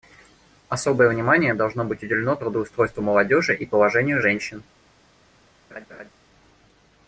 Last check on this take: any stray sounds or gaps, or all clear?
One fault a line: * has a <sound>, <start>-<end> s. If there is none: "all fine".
* has a laugh, 5.7-6.1 s